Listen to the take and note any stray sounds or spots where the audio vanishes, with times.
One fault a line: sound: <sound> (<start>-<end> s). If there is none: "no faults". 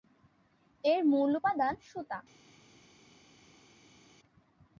no faults